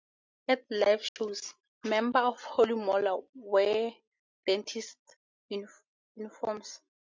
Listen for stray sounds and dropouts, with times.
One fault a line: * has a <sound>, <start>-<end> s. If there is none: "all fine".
* has a dropout, 1.1-1.2 s